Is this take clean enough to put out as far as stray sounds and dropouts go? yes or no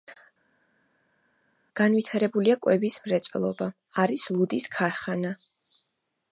yes